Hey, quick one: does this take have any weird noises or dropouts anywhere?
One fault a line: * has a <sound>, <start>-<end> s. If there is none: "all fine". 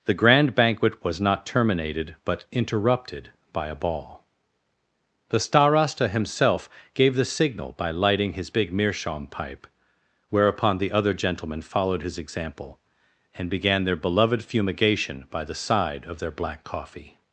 all fine